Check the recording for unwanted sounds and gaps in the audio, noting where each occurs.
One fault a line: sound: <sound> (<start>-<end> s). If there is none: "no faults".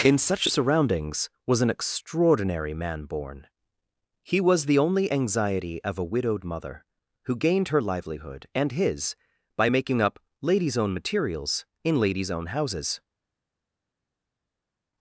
no faults